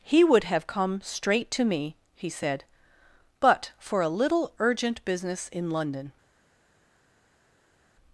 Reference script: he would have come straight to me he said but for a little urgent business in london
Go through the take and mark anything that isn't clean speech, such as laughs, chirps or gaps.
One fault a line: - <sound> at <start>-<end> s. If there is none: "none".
none